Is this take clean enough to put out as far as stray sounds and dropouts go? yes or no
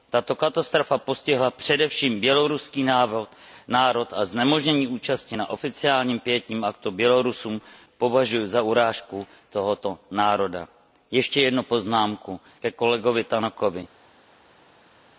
yes